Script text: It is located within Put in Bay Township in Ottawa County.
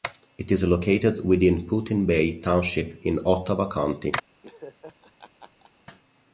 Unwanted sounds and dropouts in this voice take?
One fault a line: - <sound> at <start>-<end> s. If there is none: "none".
- laugh at 4.4-5.7 s